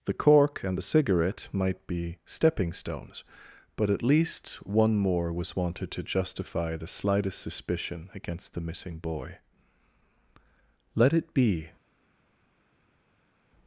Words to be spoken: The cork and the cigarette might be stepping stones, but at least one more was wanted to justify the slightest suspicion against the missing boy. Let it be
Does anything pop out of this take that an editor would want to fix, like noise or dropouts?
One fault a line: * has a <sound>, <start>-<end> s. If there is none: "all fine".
all fine